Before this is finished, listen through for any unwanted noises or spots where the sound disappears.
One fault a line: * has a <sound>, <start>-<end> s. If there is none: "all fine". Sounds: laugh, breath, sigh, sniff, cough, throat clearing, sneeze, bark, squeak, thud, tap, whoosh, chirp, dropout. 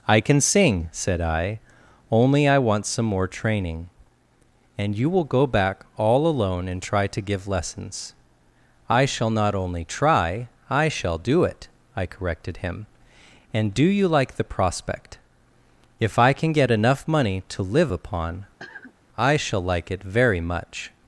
* has a cough, 18.6-18.9 s